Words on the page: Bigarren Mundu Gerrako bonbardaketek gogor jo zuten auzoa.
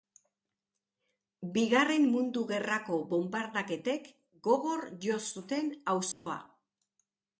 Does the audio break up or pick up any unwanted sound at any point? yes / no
yes